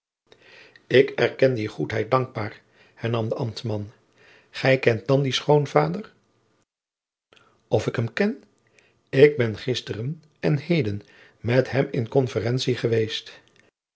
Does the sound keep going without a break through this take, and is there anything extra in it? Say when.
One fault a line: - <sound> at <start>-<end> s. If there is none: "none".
none